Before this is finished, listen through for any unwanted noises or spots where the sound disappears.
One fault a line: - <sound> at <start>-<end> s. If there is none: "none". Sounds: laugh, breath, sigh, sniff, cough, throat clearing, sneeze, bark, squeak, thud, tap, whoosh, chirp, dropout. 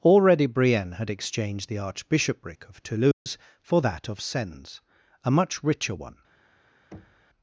- dropout at 3.1-3.3 s
- thud at 6.9-7.3 s